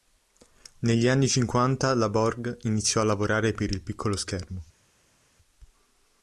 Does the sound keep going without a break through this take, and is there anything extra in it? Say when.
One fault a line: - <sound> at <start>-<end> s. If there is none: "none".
none